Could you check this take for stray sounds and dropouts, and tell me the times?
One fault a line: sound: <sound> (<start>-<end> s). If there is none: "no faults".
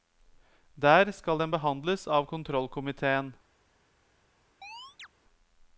sound: chirp (4.6-5.1 s)